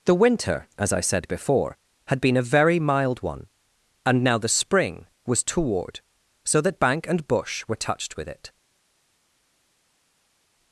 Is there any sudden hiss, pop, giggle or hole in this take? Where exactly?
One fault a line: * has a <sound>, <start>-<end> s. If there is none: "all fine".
all fine